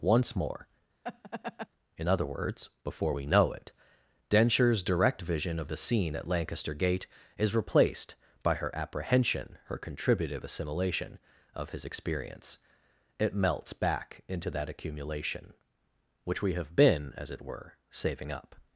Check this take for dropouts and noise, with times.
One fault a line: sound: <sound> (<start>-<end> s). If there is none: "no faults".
sound: laugh (1.0-1.7 s)